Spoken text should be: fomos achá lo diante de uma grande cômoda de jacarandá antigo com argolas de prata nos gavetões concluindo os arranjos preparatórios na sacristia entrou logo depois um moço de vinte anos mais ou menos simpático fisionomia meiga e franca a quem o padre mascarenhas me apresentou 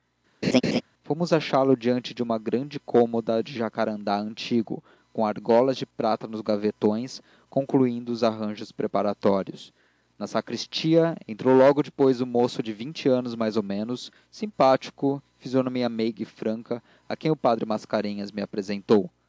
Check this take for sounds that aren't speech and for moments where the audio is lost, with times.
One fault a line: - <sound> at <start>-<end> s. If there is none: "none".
- laugh at 0.4-0.8 s